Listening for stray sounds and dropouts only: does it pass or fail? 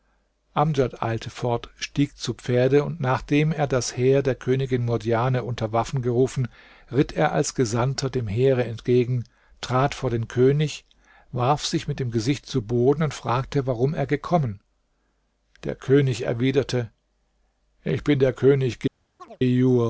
fail